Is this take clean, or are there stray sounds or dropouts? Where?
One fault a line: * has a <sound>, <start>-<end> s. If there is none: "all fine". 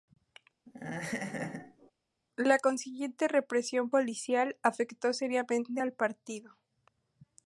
* has a laugh, 0.7-1.9 s